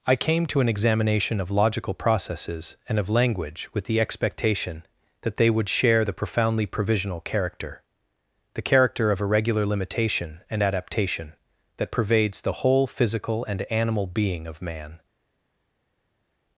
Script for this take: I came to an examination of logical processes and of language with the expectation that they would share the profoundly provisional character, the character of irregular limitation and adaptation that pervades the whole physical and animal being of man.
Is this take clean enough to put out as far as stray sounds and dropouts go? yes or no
yes